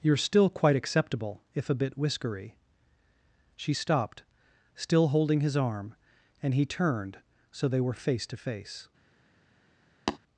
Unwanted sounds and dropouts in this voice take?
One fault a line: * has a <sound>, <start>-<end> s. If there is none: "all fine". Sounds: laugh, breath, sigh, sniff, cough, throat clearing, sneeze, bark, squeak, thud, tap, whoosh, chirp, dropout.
* has a tap, 10.1-10.2 s